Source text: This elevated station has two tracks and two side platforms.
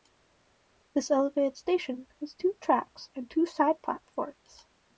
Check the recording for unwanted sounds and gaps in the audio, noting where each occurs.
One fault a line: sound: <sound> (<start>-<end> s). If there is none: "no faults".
no faults